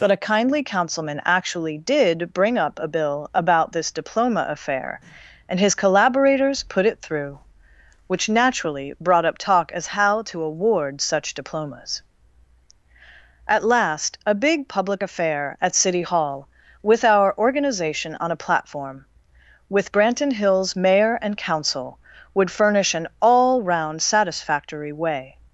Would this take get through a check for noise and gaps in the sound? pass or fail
pass